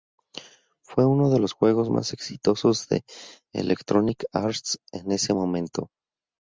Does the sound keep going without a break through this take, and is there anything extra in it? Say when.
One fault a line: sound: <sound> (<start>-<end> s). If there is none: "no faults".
no faults